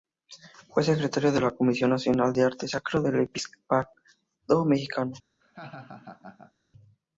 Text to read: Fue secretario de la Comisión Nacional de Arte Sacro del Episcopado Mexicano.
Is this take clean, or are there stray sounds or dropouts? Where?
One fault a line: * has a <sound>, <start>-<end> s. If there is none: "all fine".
* has a laugh, 5.4-6.5 s